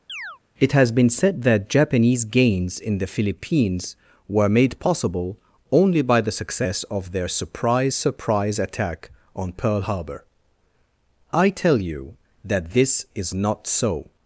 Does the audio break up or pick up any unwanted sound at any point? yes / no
yes